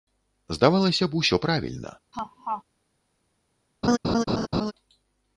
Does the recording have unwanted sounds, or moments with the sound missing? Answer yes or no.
yes